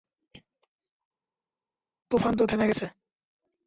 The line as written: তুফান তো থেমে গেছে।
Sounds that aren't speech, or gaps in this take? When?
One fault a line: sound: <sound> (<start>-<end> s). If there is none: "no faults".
no faults